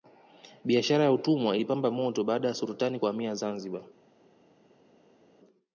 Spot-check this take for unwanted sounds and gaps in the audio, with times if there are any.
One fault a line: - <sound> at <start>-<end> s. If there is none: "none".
none